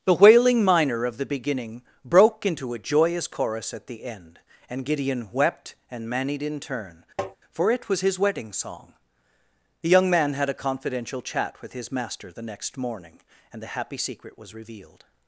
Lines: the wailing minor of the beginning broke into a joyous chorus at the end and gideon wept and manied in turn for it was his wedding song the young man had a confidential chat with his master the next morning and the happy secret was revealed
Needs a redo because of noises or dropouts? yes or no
yes